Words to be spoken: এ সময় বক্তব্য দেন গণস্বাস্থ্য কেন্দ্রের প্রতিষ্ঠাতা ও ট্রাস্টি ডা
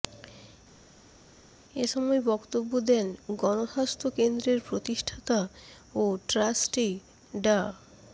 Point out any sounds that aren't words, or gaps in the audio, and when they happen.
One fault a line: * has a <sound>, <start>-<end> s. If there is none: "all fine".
all fine